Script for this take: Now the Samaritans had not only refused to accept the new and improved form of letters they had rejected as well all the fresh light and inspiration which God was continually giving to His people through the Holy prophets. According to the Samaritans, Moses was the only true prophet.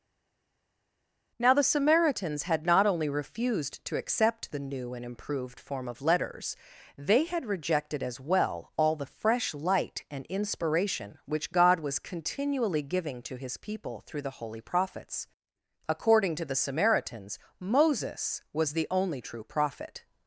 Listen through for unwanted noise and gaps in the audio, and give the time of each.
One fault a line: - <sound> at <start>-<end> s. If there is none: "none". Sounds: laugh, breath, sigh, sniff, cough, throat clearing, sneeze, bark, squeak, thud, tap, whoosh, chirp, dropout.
none